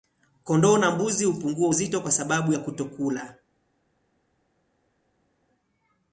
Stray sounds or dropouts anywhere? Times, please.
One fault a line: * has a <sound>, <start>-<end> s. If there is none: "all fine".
all fine